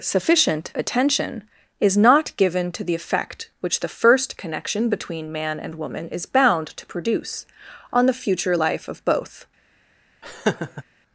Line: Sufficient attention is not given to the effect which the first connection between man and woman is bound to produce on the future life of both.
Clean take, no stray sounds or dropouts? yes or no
no